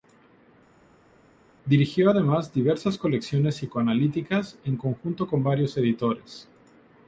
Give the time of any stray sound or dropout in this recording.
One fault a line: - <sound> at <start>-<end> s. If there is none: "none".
none